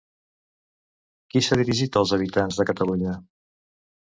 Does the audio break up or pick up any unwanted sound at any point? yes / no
no